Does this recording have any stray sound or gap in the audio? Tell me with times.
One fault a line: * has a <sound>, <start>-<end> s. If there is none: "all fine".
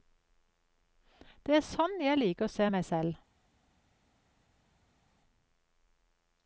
all fine